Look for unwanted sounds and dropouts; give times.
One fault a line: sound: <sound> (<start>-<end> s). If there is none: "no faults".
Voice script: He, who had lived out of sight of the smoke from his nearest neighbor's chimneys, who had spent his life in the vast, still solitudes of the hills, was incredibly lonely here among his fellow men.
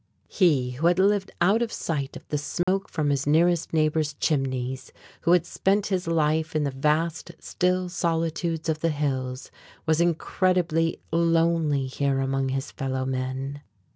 sound: dropout (2.6-2.7 s)